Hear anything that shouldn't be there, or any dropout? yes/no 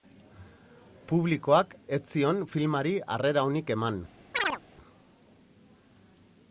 yes